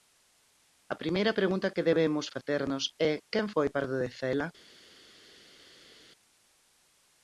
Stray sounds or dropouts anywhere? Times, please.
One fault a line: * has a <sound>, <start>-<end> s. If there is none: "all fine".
all fine